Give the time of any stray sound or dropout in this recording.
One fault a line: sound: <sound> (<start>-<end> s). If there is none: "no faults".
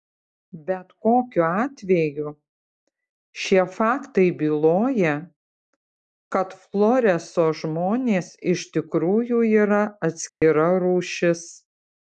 sound: dropout (10.3-10.4 s)